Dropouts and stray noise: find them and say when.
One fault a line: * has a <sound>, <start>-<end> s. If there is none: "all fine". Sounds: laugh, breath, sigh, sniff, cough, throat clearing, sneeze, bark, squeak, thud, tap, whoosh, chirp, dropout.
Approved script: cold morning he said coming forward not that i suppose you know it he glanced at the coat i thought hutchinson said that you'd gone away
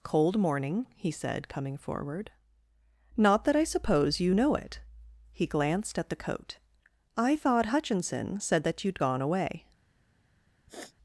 * has a sniff, 10.7-10.9 s